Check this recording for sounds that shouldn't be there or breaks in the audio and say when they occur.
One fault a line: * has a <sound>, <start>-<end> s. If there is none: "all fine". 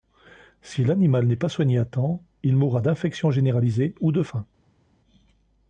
all fine